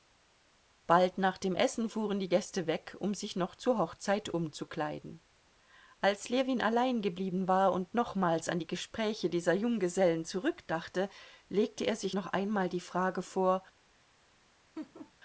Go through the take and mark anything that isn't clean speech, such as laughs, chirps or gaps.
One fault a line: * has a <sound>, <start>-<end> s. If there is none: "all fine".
* has a laugh, 14.8-15.1 s